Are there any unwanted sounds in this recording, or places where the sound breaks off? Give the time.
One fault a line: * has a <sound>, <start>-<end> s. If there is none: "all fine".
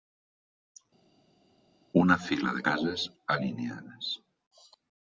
all fine